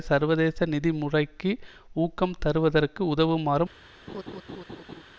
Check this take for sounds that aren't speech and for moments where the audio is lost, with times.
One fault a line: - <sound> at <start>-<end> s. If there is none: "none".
- laugh at 4.1-5.0 s